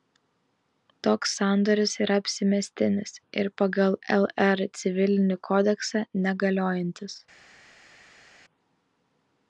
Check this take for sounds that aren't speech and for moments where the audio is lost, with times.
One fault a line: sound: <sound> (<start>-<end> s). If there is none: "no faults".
no faults